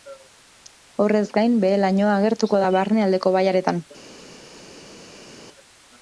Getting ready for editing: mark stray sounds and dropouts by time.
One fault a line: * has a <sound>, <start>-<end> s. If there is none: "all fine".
all fine